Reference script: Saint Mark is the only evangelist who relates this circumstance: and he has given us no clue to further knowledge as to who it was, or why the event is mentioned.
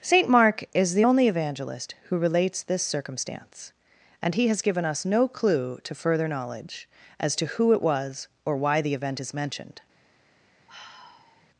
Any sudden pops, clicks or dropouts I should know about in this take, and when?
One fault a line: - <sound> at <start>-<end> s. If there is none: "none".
- sigh at 10.7-11.5 s